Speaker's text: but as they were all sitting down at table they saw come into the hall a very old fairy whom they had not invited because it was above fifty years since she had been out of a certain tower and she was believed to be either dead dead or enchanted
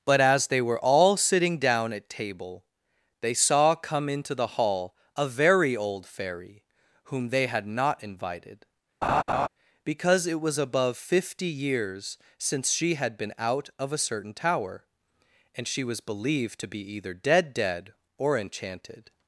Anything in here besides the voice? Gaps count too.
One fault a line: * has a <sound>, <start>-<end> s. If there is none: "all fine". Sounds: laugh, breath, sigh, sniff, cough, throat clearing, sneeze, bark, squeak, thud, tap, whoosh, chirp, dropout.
* has a laugh, 9.0-9.5 s